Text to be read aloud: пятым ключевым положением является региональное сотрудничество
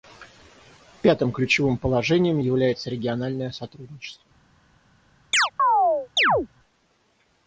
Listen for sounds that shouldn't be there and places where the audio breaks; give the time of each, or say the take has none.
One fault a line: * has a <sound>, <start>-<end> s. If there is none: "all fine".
* has a chirp, 5.3-6.5 s